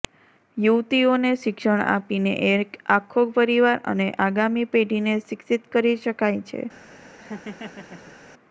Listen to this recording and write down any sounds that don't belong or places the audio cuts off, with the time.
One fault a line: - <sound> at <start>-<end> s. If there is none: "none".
- laugh at 7.2-8.2 s